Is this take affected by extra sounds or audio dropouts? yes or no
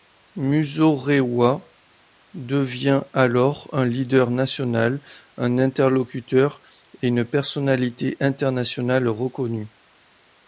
no